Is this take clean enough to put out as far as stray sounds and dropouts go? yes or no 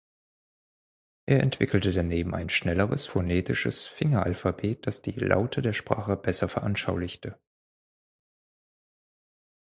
yes